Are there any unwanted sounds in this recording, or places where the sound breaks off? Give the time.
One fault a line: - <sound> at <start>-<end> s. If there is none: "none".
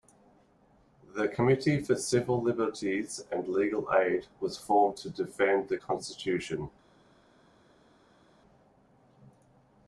none